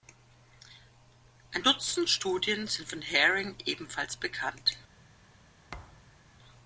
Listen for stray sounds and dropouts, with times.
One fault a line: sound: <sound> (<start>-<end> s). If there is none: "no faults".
sound: thud (5.7-6.2 s)